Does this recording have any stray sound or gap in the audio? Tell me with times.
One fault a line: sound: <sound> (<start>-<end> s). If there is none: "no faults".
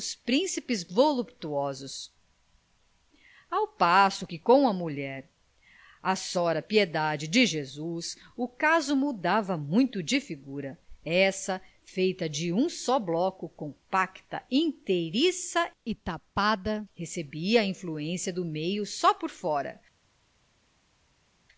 no faults